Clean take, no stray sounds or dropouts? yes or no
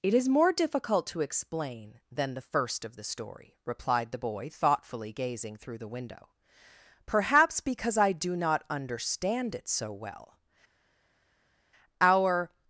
yes